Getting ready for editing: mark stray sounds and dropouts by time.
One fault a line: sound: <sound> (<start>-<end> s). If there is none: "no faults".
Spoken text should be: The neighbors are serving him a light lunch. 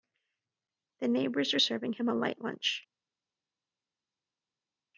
no faults